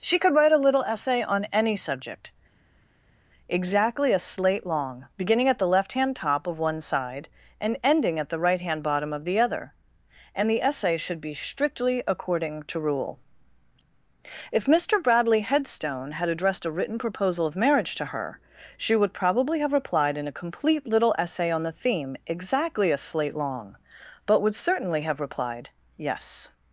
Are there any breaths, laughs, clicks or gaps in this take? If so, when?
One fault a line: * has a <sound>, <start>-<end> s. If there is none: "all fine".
all fine